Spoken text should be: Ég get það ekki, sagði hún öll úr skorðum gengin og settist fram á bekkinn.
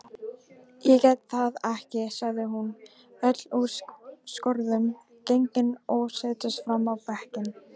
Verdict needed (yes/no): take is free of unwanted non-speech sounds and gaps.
yes